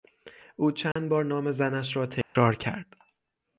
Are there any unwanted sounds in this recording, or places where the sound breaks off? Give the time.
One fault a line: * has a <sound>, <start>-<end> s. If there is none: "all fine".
* has a dropout, 0.9-1.0 s
* has a dropout, 2.2-2.4 s